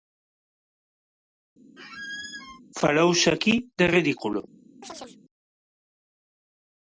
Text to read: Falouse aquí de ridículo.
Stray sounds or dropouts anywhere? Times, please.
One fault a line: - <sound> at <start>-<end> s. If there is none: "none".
- squeak at 1.8-2.6 s
- chirp at 4.8-5.2 s